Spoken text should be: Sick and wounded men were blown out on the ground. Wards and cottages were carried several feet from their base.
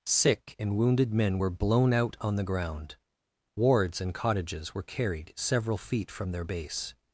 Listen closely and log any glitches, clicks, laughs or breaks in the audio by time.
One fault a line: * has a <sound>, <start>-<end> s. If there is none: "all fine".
all fine